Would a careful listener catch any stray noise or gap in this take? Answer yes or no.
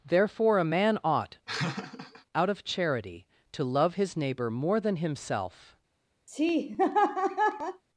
yes